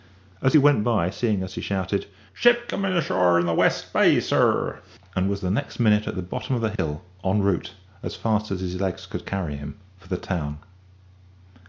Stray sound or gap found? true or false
true